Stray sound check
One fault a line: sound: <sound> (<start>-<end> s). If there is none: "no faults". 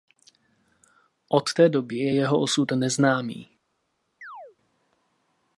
sound: chirp (4.2-4.6 s)